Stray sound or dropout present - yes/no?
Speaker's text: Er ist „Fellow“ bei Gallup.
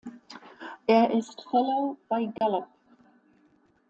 yes